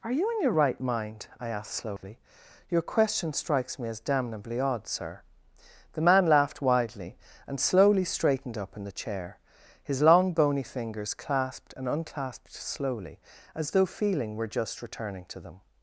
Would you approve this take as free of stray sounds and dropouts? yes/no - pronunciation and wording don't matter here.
no